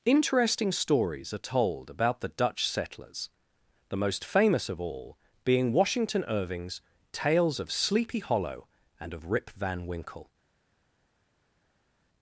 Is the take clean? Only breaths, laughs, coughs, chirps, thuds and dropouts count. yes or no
yes